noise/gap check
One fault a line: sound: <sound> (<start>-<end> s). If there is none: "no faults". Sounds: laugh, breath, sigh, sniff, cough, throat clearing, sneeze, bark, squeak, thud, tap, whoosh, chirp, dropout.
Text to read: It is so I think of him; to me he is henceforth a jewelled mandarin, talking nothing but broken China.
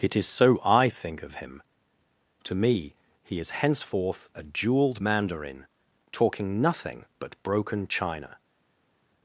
no faults